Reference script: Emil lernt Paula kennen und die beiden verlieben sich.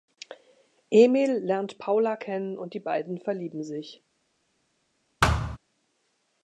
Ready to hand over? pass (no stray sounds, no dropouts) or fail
fail